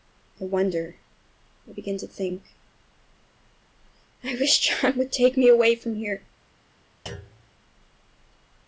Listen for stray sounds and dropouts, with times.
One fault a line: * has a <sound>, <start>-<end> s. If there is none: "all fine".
* has a thud, 7.1-7.5 s